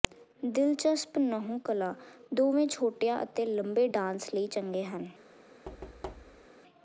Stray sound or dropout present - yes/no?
yes